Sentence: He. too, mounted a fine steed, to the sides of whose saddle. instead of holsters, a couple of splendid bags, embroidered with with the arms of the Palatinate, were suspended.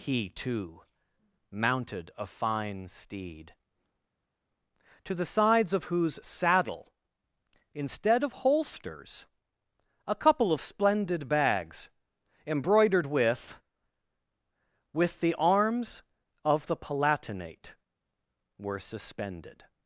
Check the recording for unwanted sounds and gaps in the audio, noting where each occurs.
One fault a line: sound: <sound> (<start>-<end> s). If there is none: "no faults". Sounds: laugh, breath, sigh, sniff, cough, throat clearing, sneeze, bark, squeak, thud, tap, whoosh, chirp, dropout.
no faults